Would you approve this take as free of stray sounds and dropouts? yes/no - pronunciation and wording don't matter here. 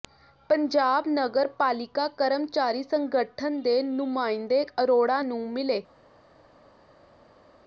yes